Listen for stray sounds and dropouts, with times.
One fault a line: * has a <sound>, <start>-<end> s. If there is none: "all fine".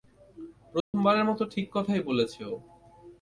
* has a dropout, 0.8-0.9 s